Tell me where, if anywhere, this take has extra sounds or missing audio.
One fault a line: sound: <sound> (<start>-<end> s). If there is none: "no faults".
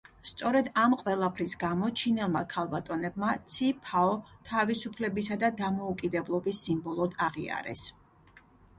no faults